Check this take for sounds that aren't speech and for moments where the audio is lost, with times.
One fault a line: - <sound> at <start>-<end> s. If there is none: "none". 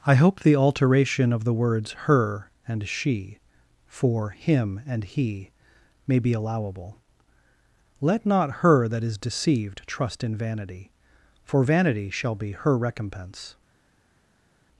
none